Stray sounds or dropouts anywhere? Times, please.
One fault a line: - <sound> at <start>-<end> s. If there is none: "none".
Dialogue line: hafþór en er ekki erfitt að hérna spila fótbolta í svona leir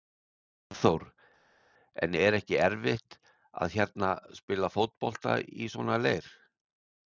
none